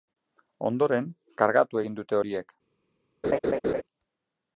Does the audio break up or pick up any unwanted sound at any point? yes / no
yes